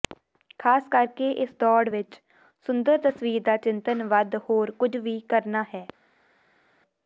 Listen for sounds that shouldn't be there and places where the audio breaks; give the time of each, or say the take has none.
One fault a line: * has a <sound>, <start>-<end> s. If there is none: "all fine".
all fine